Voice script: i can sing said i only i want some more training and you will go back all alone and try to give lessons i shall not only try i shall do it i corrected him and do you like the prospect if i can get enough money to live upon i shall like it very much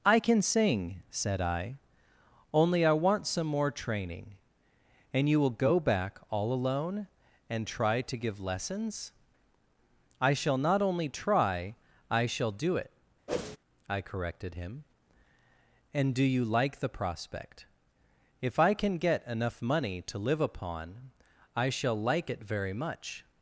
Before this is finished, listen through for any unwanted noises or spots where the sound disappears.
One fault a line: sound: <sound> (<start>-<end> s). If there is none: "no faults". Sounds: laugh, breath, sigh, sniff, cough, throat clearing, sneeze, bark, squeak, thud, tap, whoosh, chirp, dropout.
sound: whoosh (13.3-13.6 s)